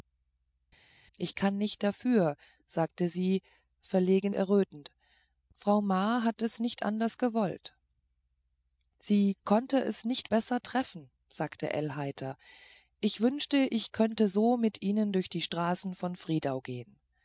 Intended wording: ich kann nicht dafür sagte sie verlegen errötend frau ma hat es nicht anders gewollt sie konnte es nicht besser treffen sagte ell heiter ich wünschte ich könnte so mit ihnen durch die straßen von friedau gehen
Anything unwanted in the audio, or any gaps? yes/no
no